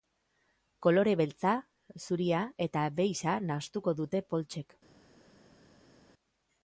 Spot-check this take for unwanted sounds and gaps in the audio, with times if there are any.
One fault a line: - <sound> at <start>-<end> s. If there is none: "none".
none